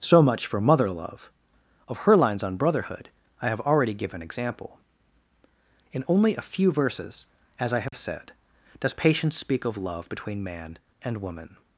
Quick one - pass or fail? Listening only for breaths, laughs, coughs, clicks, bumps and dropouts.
fail